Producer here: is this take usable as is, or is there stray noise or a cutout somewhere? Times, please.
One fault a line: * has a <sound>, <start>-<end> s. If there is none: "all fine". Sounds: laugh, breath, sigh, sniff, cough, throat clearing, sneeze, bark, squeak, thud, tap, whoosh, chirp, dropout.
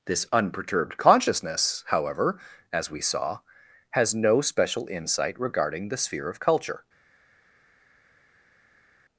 all fine